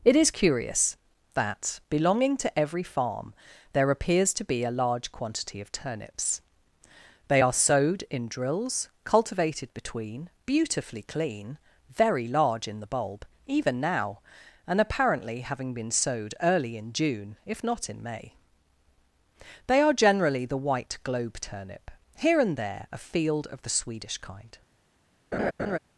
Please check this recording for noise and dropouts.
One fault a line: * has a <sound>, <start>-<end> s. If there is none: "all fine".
* has a laugh, 25.3-25.8 s